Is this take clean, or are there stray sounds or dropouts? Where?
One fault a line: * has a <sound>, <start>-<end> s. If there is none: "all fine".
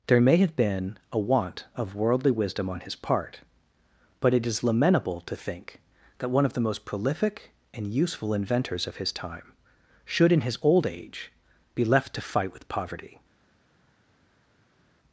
all fine